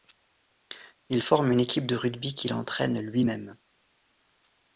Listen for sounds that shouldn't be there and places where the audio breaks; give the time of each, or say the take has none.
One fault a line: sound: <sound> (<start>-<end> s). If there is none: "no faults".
no faults